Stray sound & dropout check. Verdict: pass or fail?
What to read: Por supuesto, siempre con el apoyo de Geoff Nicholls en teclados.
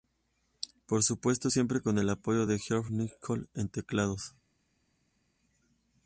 pass